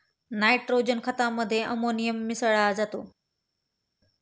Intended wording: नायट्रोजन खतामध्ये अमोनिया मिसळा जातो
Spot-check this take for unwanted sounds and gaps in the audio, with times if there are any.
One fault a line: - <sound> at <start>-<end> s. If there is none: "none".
none